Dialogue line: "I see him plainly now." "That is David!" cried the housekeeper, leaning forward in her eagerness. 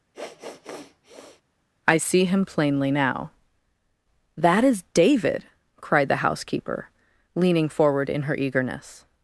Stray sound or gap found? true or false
true